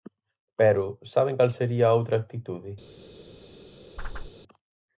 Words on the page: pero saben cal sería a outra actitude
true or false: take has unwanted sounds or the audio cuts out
true